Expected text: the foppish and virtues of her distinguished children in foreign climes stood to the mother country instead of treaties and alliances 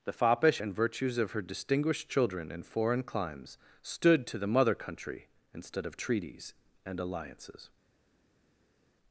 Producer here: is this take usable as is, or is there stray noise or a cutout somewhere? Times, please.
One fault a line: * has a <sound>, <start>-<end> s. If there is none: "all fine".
all fine